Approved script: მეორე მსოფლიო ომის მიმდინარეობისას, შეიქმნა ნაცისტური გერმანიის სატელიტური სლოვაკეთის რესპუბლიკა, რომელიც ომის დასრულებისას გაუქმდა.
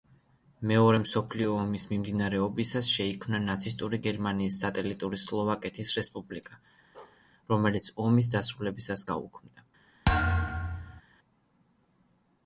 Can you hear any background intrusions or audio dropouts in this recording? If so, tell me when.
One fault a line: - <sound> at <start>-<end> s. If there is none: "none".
- bark at 6.9-7.2 s
- thud at 10.1-11.0 s